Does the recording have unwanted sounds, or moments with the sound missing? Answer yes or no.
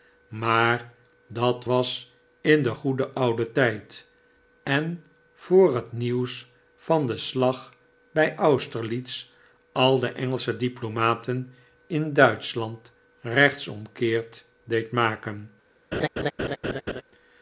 yes